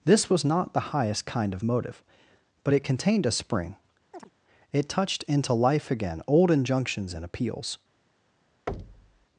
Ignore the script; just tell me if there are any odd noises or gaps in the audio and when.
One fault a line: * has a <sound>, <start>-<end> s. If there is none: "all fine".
* has a chirp, 4.1-4.3 s
* has a thud, 8.7-9.3 s